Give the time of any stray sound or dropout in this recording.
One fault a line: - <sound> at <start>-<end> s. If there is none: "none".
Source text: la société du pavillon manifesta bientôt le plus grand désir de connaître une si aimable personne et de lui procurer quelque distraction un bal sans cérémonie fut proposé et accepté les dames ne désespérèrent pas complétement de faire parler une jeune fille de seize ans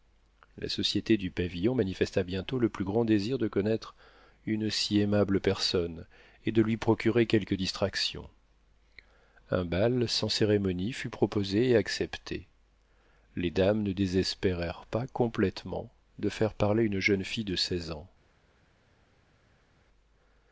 none